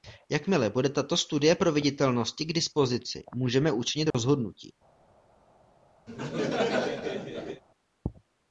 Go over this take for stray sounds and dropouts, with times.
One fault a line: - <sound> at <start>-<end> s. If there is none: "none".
- dropout at 4.1-4.1 s
- laugh at 6.1-7.6 s